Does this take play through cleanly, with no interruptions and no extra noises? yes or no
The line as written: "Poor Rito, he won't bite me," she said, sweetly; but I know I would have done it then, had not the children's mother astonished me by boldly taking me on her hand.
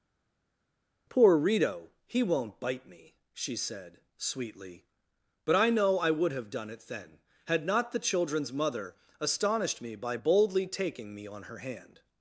yes